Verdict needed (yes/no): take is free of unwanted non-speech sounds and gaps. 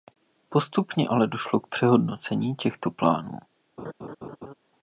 no